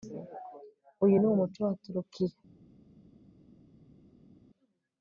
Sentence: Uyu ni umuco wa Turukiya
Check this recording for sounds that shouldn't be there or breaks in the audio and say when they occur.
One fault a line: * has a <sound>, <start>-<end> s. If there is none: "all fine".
all fine